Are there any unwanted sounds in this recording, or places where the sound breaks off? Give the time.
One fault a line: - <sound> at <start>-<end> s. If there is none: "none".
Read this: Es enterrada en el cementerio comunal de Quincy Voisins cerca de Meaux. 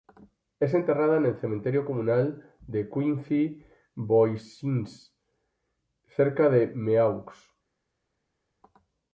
none